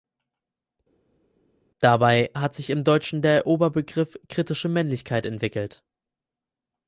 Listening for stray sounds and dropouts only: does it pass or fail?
pass